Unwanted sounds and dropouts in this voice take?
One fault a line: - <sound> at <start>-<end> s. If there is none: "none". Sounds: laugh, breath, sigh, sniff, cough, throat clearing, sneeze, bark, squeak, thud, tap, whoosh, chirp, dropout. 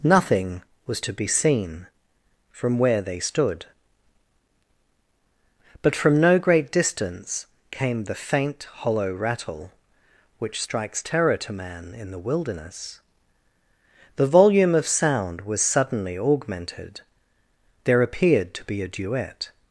none